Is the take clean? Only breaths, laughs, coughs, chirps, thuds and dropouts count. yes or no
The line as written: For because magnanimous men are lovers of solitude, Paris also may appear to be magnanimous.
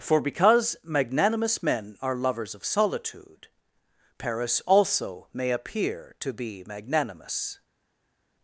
yes